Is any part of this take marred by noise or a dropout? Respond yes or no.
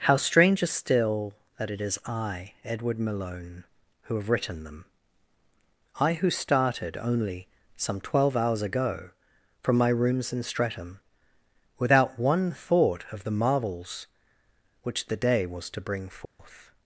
yes